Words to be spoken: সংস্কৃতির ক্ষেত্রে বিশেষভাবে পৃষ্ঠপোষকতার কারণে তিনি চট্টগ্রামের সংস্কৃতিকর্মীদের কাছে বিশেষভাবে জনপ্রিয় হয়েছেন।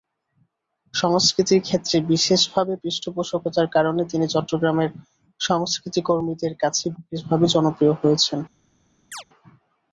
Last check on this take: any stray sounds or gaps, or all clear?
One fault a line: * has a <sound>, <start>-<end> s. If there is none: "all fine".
* has a chirp, 9.1-9.2 s